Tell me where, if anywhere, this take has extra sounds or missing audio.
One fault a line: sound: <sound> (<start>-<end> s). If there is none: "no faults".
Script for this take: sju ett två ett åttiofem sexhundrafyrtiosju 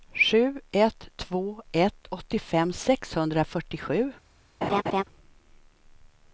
sound: laugh (4.6-5.0 s)